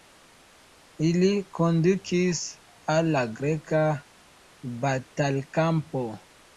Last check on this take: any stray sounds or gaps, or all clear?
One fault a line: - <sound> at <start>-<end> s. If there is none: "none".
none